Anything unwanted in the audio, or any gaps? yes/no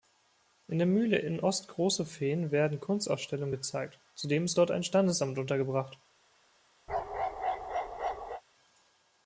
yes